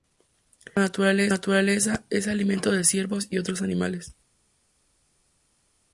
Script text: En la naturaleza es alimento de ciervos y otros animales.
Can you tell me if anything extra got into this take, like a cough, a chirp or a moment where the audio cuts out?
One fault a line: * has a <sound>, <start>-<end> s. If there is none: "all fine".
all fine